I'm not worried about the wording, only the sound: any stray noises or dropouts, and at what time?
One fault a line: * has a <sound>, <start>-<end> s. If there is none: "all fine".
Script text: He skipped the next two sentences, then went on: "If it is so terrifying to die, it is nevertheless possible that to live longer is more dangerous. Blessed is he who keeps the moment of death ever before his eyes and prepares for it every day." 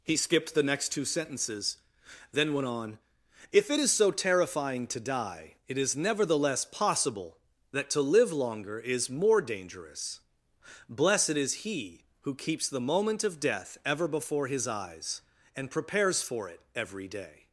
all fine